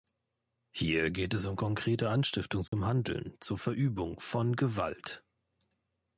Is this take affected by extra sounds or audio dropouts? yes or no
yes